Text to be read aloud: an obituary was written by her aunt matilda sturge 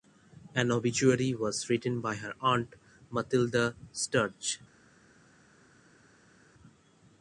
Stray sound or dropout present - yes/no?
no